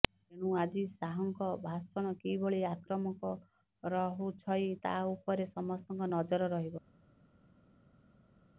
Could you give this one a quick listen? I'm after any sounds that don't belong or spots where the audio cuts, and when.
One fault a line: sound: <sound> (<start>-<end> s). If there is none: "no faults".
no faults